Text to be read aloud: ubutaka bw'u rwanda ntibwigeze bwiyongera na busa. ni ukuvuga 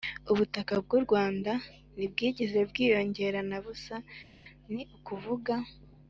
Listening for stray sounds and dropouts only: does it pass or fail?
pass